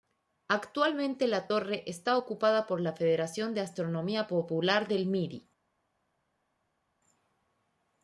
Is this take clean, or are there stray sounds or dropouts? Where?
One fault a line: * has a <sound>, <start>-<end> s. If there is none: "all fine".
all fine